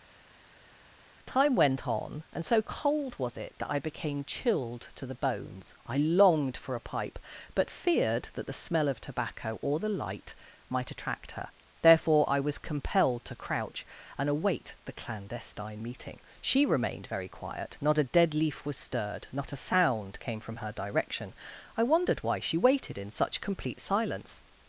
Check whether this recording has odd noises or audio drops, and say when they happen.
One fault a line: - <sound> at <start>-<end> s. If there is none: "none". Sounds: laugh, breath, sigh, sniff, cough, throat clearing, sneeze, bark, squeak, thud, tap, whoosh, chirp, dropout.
none